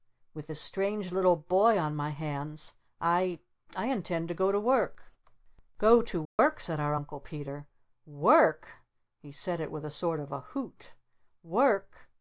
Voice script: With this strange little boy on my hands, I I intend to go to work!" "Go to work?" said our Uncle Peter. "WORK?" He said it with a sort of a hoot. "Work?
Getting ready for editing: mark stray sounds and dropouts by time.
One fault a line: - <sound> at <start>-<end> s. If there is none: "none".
- dropout at 6.3-6.4 s